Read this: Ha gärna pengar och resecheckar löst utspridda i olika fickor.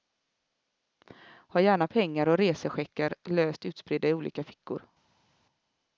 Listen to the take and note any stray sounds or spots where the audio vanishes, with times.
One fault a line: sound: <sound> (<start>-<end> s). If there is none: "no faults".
no faults